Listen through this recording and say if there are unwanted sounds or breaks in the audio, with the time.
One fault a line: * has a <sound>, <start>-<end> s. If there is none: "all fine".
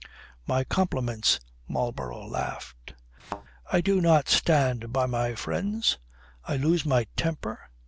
* has a thud, 3.2-3.4 s